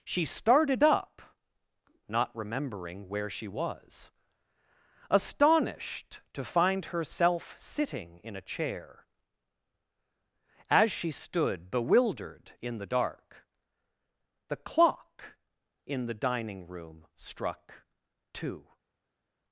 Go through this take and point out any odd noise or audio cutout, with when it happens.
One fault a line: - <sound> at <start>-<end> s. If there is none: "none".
none